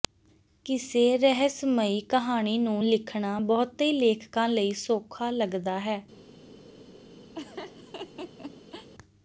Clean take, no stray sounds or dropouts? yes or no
no